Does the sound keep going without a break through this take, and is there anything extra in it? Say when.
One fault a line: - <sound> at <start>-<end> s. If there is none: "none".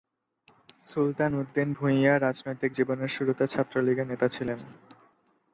none